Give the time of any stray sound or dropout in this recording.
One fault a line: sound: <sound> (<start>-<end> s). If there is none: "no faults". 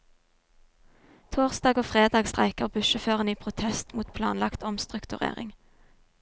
no faults